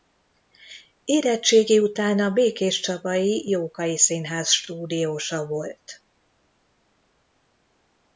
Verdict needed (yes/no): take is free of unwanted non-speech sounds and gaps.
yes